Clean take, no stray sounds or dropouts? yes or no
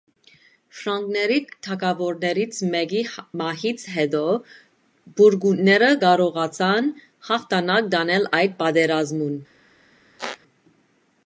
no